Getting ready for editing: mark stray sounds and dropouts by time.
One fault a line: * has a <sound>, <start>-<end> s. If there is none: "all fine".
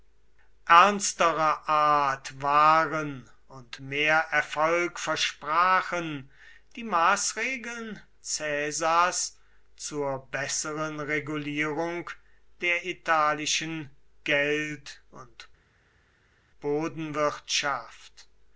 all fine